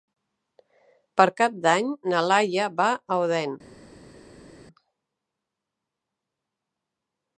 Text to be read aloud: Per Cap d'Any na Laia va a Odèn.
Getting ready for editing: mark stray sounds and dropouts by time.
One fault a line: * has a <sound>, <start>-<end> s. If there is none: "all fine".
all fine